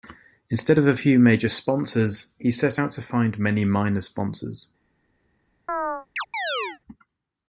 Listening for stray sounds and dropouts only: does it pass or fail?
fail